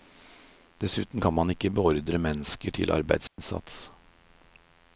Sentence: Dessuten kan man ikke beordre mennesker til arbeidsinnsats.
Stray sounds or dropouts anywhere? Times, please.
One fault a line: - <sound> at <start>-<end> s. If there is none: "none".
- dropout at 3.3-3.4 s